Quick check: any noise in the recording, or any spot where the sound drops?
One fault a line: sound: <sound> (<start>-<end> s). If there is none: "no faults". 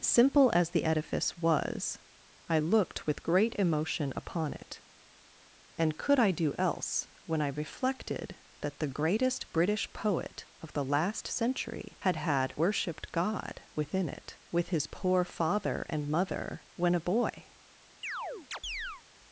sound: chirp (18.0-19.0 s)